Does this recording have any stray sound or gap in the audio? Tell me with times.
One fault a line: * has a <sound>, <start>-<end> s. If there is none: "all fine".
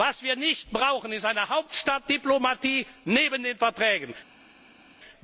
all fine